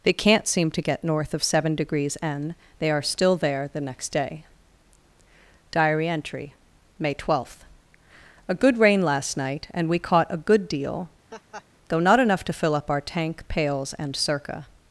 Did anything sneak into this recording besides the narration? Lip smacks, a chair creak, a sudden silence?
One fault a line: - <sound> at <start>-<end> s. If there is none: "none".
- laugh at 11.3-11.7 s